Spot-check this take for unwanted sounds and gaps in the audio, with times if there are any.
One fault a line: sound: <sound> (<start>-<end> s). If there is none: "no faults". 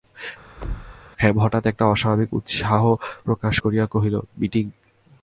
sound: thud (0.6-1.0 s)